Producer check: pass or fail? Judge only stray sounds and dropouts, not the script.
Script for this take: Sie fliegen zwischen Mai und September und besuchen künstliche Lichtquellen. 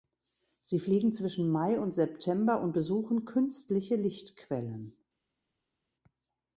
pass